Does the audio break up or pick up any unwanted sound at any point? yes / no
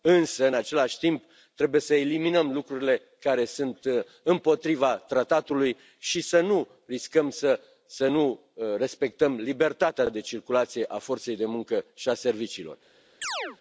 yes